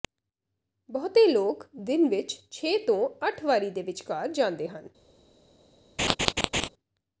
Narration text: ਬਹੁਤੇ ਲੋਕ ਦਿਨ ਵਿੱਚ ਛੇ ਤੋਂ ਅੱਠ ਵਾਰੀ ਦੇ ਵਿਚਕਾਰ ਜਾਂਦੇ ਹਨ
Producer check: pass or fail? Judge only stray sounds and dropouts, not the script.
fail